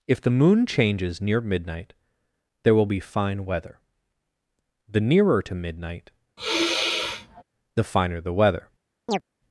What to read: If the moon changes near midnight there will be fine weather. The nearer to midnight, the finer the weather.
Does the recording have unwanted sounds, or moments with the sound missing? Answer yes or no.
yes